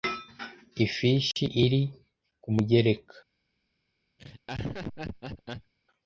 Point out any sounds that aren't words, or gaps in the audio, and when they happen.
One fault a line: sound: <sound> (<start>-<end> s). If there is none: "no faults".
sound: laugh (4.2-5.7 s)